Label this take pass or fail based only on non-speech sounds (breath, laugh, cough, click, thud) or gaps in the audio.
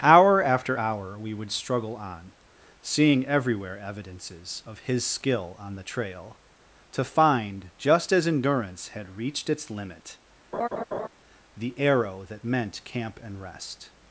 fail